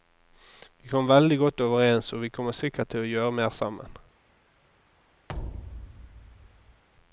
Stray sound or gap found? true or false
true